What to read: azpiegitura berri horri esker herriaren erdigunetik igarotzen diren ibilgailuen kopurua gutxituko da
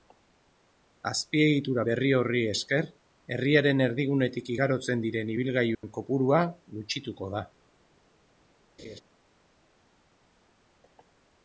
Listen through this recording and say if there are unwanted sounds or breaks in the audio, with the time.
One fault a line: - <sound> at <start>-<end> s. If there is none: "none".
- dropout at 5.7-5.8 s
- laugh at 8.8-9.0 s